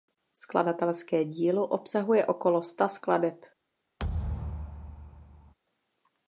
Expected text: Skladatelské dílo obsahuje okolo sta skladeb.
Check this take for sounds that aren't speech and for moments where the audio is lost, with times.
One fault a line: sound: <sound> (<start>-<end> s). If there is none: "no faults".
sound: thud (4.0-5.5 s)